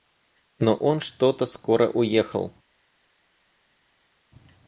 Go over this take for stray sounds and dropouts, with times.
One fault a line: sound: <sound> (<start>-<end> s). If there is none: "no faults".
no faults